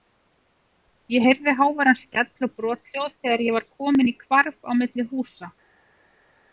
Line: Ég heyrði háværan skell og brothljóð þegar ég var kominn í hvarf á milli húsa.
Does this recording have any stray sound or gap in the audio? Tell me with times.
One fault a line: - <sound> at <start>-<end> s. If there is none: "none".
none